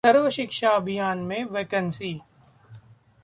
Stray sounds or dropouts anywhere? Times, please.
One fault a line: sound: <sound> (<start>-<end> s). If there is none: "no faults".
no faults